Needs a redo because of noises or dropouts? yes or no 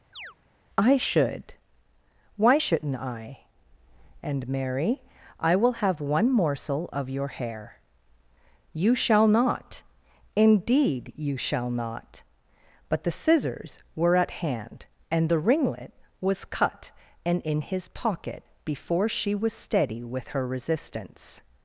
yes